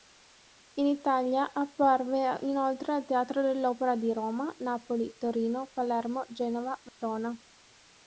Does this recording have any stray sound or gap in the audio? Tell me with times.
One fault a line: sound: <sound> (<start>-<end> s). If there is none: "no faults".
sound: dropout (6.9-7.0 s)